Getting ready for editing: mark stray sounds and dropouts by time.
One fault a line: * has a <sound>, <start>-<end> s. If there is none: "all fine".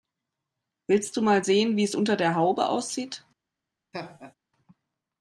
* has a laugh, 3.9-4.3 s